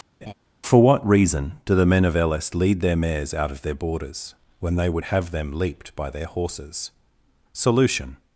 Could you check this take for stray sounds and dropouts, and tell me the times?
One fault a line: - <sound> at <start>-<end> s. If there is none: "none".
- laugh at 0.2-0.3 s